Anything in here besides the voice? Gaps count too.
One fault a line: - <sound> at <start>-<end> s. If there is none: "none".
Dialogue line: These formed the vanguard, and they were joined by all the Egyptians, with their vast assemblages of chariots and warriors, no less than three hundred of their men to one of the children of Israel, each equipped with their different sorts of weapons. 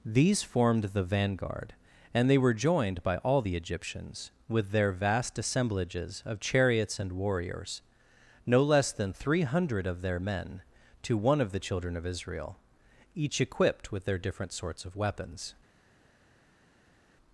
none